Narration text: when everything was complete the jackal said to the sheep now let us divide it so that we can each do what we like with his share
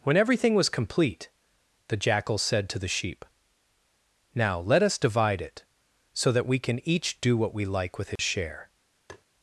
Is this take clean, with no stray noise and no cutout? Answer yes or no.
no